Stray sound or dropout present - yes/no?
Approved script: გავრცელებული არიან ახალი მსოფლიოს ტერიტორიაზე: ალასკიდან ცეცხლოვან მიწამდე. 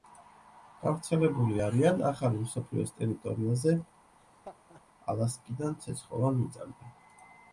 yes